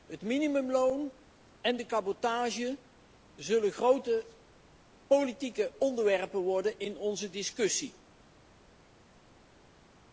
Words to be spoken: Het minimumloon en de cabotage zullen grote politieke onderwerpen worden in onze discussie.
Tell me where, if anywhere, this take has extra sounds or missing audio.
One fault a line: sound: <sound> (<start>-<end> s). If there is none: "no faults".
no faults